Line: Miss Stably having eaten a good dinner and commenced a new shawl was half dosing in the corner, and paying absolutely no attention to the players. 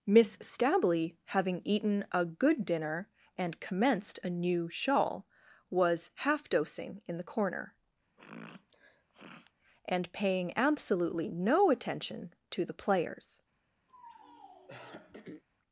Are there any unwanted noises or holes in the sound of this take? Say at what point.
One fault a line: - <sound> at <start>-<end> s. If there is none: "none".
- sniff at 8.2-9.5 s
- throat clearing at 13.9-15.4 s